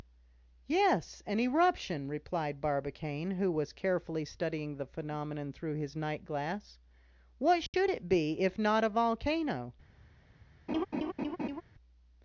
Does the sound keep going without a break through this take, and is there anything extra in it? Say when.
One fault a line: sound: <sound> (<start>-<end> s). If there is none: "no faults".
sound: dropout (7.7-7.7 s)
sound: laugh (10.7-11.6 s)